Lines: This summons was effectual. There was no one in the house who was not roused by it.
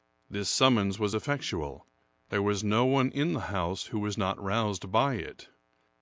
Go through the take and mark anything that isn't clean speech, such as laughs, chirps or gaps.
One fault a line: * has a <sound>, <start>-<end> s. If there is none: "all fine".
all fine